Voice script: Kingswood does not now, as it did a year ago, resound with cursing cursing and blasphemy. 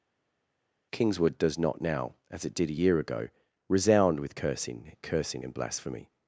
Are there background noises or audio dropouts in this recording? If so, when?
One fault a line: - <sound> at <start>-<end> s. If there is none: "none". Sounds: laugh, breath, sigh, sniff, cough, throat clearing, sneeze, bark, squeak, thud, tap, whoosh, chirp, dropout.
none